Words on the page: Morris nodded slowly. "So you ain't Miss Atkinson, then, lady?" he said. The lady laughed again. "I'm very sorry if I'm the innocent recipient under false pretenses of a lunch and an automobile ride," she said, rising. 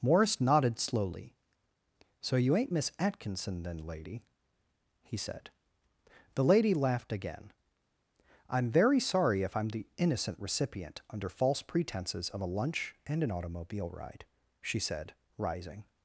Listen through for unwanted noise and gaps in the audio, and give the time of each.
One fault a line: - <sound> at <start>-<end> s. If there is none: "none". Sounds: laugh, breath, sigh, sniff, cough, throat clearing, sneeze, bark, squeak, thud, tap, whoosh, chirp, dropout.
none